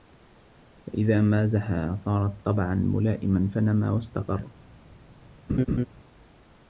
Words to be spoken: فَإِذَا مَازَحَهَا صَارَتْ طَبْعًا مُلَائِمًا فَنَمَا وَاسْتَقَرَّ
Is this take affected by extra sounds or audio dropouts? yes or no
yes